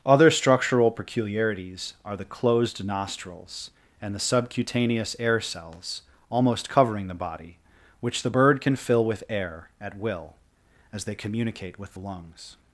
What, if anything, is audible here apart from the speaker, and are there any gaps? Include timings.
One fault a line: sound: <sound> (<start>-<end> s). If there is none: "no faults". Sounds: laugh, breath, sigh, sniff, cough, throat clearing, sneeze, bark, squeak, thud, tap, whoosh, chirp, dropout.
no faults